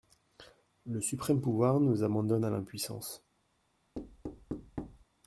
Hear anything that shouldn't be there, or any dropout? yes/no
yes